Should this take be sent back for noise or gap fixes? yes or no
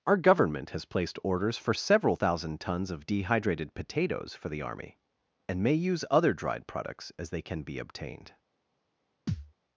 yes